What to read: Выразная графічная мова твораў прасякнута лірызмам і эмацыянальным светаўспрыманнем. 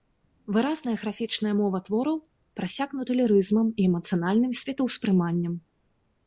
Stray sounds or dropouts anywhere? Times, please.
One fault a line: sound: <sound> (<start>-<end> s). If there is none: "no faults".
no faults